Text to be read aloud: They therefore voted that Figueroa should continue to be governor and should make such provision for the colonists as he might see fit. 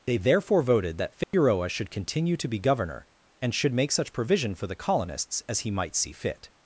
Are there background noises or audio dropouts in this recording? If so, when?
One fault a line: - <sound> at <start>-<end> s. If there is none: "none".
- dropout at 1.2-1.3 s